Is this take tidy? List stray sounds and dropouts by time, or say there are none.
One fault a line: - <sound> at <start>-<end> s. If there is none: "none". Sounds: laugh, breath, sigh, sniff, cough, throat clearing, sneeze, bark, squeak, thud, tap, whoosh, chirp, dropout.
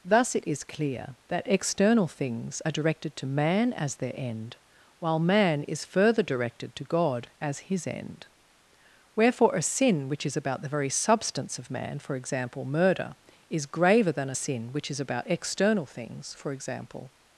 none